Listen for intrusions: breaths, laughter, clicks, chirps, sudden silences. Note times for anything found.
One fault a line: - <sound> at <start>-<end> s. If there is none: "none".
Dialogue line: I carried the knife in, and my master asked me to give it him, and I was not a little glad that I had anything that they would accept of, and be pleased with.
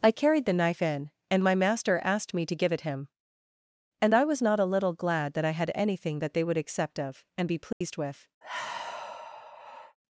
- dropout at 7.7-7.8 s
- sigh at 8.4-10.0 s